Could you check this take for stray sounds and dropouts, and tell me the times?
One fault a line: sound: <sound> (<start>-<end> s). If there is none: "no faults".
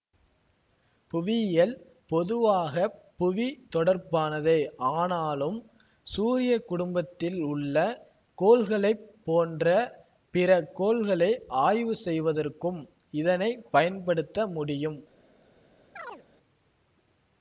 sound: chirp (16.0-16.2 s)